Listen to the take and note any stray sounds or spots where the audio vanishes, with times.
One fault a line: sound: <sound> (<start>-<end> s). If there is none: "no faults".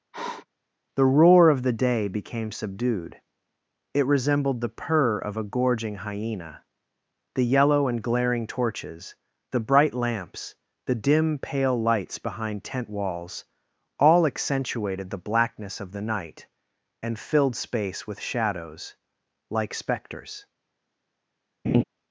sound: sniff (0.1-0.5 s)
sound: laugh (21.6-21.8 s)